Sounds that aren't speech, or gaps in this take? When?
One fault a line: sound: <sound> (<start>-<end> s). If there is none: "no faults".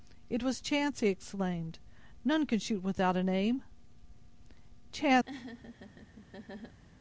sound: laugh (5.3-6.8 s)